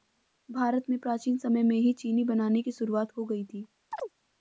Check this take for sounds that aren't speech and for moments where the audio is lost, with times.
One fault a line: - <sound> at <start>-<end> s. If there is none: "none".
- chirp at 3.9-4.1 s